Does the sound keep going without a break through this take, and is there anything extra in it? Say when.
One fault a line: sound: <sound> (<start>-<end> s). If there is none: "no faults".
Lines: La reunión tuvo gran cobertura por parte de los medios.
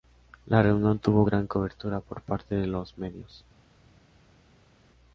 no faults